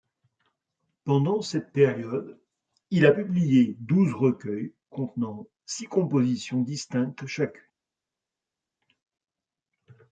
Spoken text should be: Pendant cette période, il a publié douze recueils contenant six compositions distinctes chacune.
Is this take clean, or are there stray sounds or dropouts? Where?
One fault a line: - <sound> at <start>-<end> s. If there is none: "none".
none